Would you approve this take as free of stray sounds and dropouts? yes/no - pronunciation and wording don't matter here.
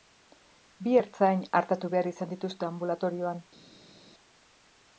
yes